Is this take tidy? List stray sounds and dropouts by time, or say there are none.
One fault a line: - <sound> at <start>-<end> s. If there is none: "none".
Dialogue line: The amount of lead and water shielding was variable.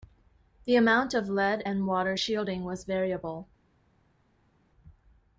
none